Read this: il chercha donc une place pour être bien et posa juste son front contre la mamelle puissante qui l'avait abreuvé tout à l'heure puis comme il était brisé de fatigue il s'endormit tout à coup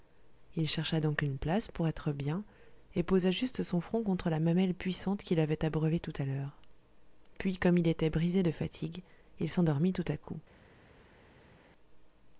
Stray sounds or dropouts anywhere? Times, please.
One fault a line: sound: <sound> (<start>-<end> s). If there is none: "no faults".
no faults